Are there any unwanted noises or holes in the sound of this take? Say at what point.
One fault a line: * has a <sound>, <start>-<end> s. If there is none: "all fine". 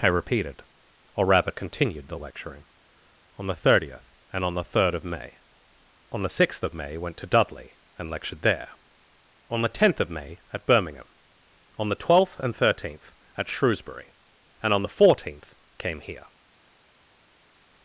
all fine